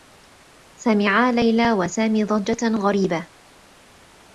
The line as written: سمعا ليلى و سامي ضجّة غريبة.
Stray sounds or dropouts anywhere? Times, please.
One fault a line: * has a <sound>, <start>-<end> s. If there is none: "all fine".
all fine